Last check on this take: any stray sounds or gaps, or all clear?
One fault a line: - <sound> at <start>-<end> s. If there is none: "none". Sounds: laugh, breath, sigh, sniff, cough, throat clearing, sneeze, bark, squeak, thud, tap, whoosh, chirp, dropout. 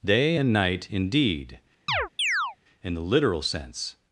- chirp at 1.9-2.6 s